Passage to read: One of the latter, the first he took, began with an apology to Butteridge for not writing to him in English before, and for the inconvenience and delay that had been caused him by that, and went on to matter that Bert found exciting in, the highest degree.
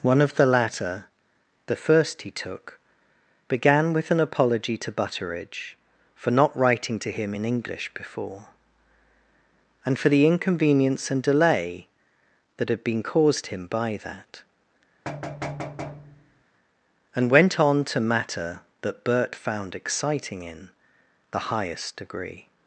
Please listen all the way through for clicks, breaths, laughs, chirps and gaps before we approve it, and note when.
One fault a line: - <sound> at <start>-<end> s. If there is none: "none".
- thud at 15.0-16.4 s